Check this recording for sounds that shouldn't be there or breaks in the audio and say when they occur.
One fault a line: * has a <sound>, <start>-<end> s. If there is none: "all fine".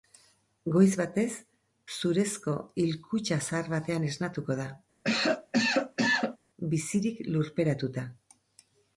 * has a cough, 5.0-6.4 s